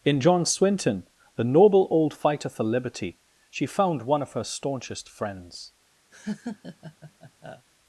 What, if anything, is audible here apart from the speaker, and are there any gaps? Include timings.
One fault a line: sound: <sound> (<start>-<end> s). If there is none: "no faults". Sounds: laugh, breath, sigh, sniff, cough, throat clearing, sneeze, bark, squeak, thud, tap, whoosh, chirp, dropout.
sound: laugh (6.1-7.7 s)